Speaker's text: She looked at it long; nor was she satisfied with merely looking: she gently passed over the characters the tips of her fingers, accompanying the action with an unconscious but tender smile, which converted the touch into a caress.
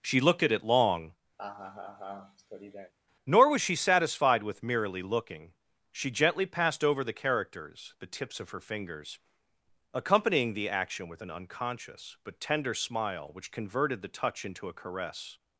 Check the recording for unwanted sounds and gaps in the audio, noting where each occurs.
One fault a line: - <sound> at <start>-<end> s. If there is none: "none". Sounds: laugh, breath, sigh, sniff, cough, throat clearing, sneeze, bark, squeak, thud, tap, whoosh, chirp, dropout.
- laugh at 1.4-2.9 s